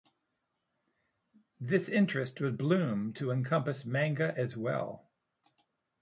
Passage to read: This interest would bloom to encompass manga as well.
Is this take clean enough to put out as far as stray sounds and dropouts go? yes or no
yes